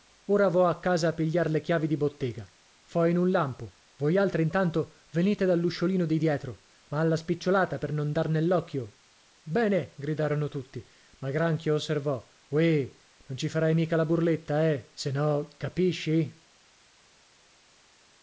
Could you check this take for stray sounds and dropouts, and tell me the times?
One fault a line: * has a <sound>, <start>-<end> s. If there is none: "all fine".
all fine